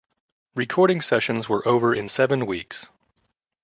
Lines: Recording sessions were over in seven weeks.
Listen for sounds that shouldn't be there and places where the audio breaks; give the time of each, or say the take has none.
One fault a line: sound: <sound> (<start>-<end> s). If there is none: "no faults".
no faults